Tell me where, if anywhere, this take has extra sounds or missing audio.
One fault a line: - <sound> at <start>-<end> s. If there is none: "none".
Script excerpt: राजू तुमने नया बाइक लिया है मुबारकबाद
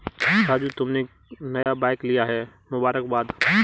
- dropout at 1.6-1.7 s